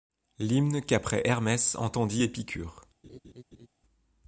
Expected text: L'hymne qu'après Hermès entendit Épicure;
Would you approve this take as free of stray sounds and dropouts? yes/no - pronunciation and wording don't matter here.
no